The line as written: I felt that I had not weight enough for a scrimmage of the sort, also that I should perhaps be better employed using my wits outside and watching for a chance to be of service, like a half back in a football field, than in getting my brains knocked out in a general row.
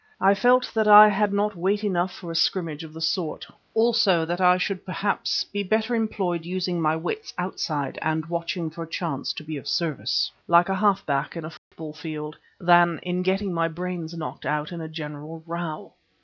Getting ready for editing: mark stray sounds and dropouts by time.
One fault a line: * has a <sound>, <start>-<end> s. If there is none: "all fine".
* has a dropout, 11.6-11.7 s